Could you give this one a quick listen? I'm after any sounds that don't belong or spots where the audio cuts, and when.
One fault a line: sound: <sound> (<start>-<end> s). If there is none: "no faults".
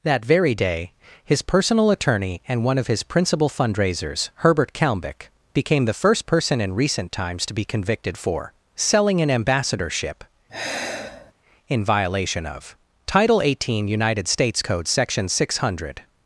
sound: sigh (10.5-11.3 s)